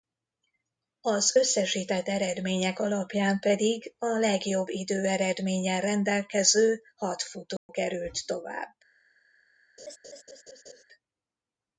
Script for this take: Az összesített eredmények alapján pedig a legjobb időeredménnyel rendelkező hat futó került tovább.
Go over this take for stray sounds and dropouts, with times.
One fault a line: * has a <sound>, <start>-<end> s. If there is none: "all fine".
* has a dropout, 7.6-7.7 s
* has a laugh, 9.8-10.8 s